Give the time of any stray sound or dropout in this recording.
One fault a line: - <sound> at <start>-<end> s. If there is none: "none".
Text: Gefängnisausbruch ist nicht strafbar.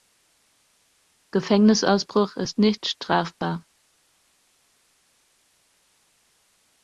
none